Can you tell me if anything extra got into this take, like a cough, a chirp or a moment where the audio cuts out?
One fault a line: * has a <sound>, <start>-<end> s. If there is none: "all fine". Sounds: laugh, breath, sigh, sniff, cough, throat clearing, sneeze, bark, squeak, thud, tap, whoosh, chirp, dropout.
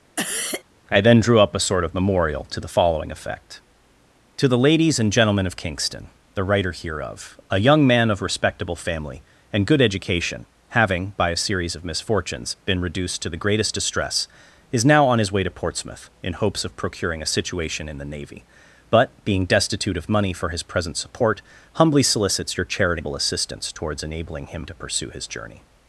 * has a cough, 0.2-0.6 s